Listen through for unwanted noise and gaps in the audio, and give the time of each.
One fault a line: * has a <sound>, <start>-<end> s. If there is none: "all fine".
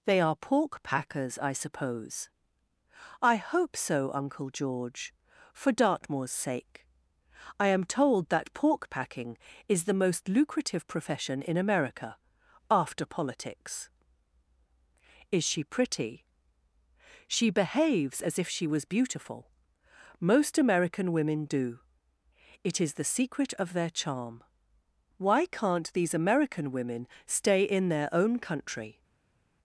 all fine